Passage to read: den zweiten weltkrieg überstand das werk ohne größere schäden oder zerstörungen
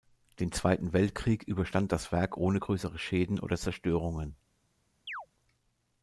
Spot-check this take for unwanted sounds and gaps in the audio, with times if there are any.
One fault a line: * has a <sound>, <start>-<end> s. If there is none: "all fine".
* has a chirp, 5.1-5.3 s